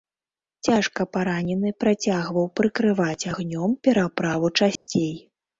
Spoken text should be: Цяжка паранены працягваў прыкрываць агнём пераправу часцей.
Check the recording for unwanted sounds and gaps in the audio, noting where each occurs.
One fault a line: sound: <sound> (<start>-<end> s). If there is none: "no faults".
sound: dropout (4.8-4.9 s)